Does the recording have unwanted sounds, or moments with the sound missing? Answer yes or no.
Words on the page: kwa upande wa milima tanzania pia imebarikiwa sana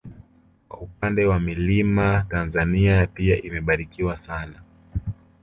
no